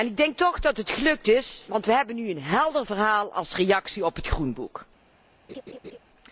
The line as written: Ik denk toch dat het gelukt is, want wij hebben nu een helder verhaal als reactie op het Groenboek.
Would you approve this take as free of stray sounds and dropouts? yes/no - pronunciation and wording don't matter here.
no